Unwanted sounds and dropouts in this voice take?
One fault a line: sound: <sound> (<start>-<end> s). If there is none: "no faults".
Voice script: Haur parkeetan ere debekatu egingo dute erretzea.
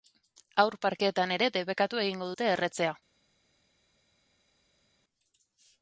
no faults